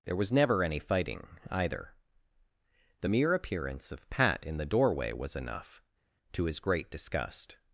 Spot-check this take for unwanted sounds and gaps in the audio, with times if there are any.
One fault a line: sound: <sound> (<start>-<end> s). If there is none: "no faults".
no faults